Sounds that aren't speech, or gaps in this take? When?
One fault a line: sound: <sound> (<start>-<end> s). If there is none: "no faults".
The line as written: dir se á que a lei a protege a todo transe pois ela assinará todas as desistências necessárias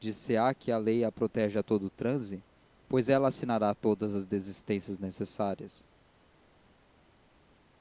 no faults